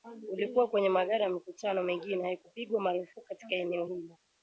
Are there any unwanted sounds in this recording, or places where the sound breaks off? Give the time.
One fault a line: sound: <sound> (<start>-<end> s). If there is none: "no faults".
no faults